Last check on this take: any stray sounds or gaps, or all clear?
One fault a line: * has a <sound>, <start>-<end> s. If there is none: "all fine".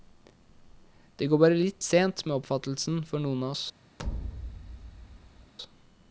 * has a thud, 4.0-5.5 s